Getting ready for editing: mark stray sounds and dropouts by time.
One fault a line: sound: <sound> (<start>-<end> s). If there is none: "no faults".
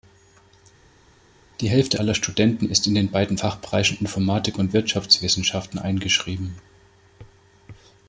no faults